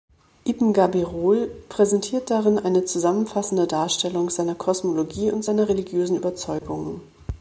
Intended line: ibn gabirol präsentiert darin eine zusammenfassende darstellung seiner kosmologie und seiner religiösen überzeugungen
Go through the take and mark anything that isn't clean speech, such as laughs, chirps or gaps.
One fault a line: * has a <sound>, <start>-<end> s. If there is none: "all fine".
* has a dropout, 6.6-6.6 s